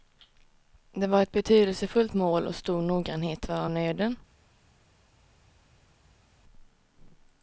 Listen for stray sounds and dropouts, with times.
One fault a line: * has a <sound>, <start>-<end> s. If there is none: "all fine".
all fine